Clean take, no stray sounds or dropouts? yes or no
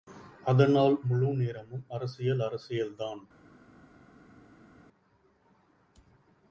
yes